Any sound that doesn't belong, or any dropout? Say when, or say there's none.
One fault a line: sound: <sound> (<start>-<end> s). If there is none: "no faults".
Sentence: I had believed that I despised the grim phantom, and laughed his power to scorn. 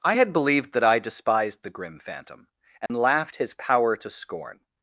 sound: dropout (2.9-2.9 s)